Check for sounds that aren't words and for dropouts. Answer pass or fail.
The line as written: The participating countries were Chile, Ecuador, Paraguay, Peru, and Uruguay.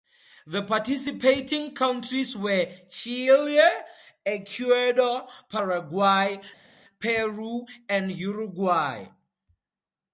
pass